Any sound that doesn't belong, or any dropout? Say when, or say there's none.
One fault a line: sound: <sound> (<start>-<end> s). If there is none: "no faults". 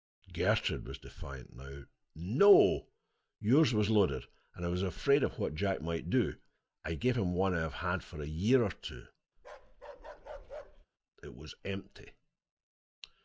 sound: bark (9.4-10.9 s)